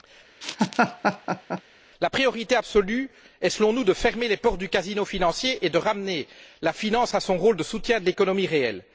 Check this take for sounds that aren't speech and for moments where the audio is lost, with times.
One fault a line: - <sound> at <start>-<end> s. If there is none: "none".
- laugh at 0.4-1.6 s